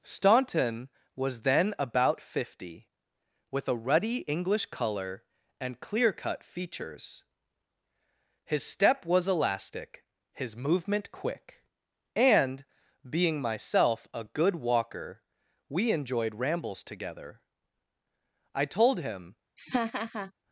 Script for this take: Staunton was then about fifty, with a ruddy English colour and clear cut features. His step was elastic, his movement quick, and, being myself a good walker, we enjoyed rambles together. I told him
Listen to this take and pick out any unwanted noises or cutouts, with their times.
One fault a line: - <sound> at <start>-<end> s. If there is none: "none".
- laugh at 19.6-20.3 s